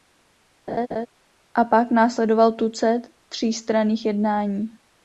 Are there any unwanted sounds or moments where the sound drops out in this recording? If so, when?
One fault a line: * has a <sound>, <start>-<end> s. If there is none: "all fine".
* has a laugh, 0.7-1.1 s